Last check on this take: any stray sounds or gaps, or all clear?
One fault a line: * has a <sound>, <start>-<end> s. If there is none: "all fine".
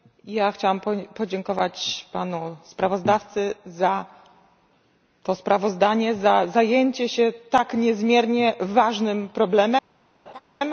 * has a laugh, 10.3-10.4 s